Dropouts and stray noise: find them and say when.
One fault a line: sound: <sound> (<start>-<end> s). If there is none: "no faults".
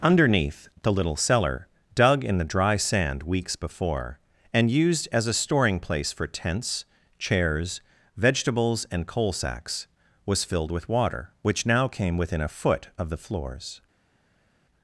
no faults